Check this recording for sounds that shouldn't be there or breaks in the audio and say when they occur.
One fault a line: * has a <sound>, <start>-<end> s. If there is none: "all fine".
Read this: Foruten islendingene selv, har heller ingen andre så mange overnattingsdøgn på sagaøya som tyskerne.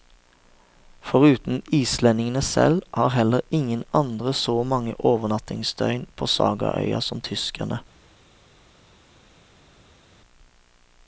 all fine